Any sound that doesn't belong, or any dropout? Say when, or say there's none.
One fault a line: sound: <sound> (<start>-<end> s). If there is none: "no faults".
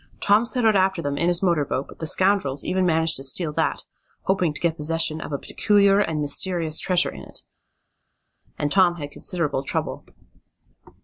no faults